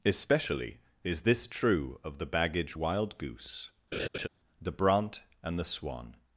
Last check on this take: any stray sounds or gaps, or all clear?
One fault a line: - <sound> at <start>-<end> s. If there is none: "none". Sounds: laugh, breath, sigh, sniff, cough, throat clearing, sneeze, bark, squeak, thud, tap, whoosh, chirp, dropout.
- laugh at 3.9-4.3 s